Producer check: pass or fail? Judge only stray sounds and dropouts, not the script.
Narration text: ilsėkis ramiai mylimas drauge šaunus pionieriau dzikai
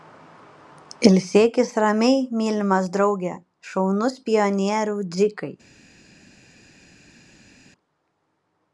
pass